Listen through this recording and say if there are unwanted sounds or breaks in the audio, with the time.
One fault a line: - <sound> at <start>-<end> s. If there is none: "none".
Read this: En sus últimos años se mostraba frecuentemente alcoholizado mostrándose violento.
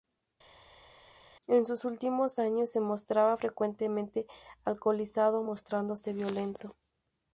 none